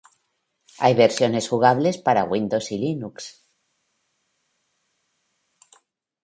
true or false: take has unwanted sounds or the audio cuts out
false